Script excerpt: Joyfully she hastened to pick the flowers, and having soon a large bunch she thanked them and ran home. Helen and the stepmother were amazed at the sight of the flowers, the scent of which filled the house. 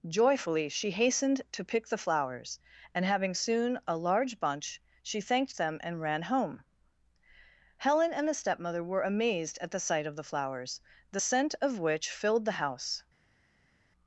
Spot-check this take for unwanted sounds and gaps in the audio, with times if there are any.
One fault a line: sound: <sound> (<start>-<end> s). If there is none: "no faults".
no faults